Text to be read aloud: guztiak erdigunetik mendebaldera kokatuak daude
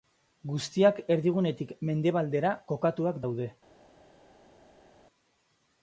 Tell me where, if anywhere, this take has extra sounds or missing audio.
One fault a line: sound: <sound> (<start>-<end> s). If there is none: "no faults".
no faults